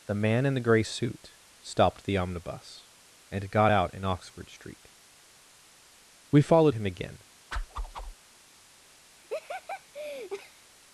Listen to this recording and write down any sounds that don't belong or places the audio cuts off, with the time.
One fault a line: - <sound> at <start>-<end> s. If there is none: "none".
- whoosh at 7.5-8.1 s
- laugh at 9.2-10.7 s